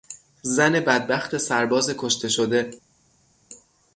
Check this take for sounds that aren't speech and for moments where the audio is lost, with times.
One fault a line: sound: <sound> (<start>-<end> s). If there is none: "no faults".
no faults